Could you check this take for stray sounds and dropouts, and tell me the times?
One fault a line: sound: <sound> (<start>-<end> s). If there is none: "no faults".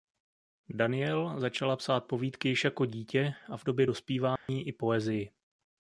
sound: dropout (4.4-4.5 s)